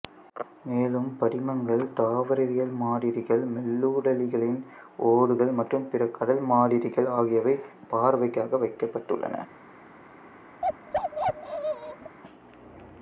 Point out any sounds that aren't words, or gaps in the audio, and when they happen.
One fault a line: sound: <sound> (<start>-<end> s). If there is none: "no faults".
sound: bark (10.6-12.2 s)